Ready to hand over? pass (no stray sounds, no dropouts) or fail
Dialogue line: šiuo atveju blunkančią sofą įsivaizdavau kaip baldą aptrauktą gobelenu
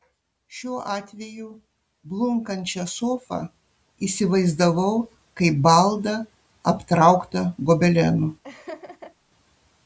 fail